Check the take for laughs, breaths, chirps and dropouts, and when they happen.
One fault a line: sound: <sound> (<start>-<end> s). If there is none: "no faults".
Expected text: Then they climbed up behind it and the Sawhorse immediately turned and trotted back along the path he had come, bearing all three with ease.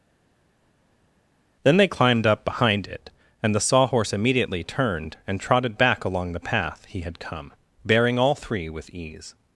no faults